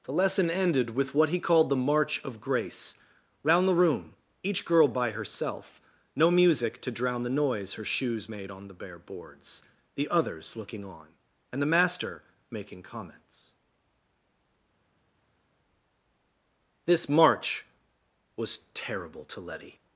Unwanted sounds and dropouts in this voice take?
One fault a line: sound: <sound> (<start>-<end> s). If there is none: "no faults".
no faults